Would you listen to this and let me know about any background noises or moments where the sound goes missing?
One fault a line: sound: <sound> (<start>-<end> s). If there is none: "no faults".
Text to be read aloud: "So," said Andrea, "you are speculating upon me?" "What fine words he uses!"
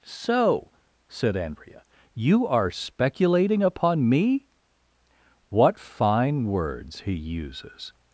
no faults